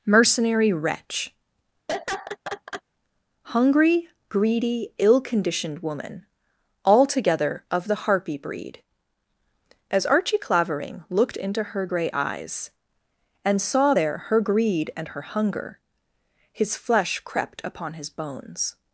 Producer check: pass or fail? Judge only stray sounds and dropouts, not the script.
fail